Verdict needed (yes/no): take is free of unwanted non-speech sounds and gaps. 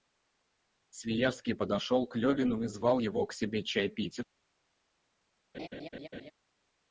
no